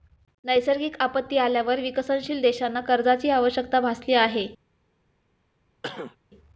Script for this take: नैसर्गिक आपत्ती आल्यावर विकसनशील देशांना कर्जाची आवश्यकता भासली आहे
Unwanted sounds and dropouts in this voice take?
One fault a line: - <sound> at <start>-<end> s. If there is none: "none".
- cough at 5.8-6.2 s